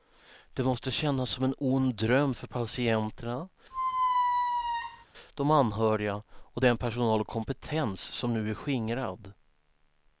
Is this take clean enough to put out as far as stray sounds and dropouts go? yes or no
no